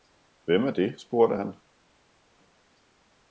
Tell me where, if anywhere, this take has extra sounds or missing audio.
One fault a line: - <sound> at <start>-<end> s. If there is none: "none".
none